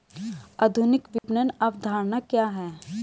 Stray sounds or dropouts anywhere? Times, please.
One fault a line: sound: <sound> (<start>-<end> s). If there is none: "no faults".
sound: dropout (1.2-1.2 s)